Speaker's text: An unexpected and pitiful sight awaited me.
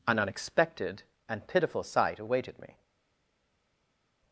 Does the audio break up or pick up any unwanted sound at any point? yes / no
no